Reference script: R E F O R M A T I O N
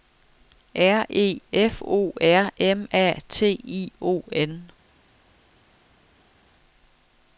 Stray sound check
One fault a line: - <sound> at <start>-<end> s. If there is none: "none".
none